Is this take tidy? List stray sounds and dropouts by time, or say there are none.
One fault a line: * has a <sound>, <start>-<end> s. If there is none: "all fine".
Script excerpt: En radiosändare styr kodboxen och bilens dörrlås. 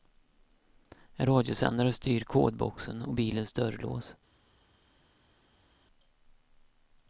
all fine